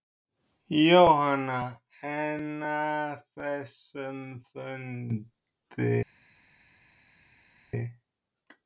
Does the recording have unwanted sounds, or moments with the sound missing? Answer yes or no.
no